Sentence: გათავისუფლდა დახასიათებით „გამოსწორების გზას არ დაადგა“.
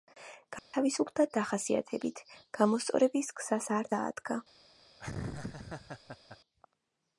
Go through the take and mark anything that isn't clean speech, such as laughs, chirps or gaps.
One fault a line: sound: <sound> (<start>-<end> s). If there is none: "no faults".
sound: dropout (0.6-0.7 s)
sound: laugh (5.0-6.4 s)